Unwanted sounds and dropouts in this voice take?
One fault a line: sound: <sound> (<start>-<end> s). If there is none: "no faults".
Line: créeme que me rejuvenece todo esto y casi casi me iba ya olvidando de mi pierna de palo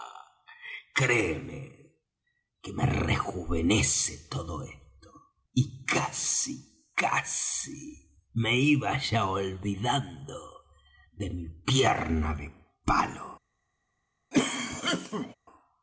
sound: cough (14.3-15.4 s)